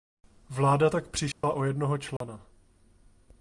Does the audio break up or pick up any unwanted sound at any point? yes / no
yes